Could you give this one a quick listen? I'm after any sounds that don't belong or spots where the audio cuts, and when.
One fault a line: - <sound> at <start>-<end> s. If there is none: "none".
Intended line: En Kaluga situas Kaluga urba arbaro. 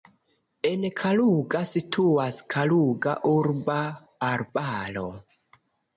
none